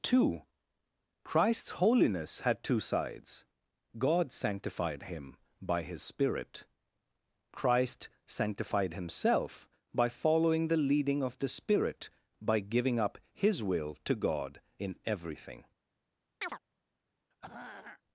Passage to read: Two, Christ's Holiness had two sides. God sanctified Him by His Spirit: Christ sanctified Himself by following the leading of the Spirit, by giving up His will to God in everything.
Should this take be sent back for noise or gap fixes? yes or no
yes